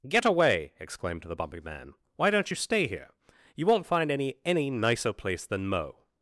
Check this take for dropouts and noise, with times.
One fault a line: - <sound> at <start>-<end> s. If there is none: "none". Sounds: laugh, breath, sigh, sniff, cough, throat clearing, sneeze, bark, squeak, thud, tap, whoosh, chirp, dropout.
none